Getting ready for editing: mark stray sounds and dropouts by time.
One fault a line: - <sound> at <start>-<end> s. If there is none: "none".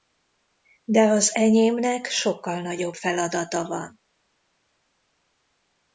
none